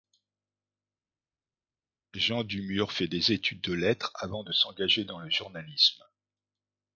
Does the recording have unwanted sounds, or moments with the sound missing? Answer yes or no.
no